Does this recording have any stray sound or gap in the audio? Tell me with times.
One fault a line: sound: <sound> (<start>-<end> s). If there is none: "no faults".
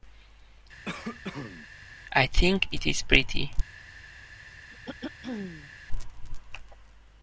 sound: cough (0.9-1.7 s)
sound: throat clearing (4.7-5.7 s)